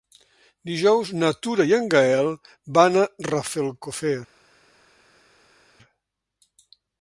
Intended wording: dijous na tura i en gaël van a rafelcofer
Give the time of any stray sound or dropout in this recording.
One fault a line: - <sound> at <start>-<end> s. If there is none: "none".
none